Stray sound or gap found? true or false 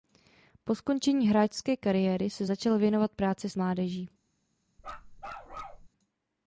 true